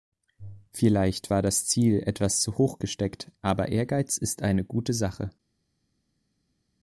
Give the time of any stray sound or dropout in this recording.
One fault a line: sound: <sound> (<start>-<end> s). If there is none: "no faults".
no faults